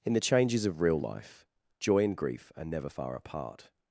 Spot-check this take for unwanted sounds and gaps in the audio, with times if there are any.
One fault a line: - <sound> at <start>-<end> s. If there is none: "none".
none